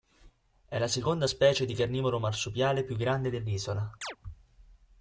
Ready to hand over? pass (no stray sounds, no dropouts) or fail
fail